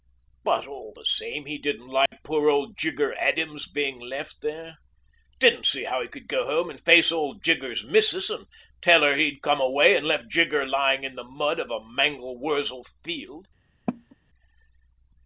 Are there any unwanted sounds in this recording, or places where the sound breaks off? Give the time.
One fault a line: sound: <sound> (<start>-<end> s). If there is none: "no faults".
sound: dropout (2.1-2.1 s)
sound: cough (13.9-14.2 s)